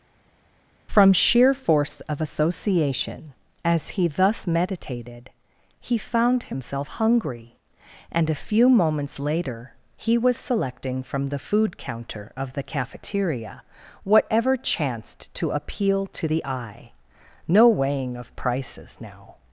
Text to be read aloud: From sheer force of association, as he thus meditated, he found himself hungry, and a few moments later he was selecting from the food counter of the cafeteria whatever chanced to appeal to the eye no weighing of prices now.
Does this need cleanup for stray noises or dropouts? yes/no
no